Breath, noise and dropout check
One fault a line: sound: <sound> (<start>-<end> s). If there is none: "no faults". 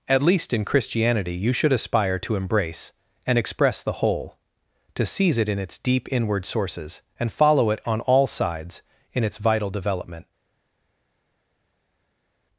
no faults